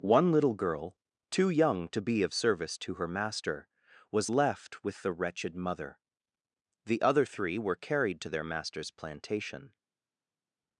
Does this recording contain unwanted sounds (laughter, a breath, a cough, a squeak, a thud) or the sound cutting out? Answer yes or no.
no